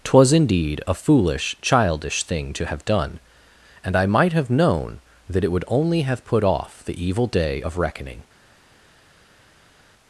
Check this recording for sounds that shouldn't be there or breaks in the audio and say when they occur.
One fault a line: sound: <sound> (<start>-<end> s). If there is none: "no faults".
no faults